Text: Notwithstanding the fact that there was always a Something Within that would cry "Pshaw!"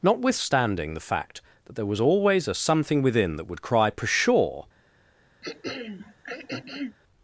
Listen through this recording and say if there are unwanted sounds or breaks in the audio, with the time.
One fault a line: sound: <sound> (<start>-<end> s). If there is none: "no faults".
sound: throat clearing (5.4-7.0 s)